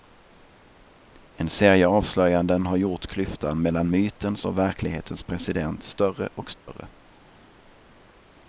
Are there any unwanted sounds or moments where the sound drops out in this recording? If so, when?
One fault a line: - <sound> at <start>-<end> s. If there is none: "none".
- dropout at 6.6-6.7 s